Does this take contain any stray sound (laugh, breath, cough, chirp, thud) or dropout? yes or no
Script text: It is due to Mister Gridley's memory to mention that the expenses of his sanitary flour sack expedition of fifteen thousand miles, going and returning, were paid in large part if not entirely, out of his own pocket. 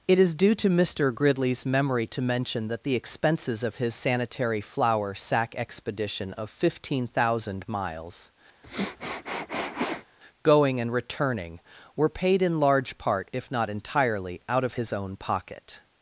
yes